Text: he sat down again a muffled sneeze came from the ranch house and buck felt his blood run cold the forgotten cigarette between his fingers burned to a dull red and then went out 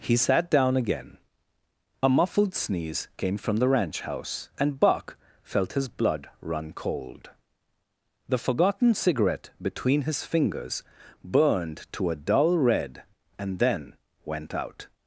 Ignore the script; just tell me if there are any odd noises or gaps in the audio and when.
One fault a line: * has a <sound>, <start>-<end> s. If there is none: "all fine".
all fine